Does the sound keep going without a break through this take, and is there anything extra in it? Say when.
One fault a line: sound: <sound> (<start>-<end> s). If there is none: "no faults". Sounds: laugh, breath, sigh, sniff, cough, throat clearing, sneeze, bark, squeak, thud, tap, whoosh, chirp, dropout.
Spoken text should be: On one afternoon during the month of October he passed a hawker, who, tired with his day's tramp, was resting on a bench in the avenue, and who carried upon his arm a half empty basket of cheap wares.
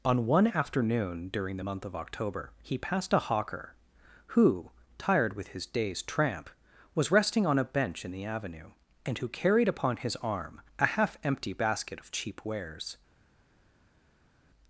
no faults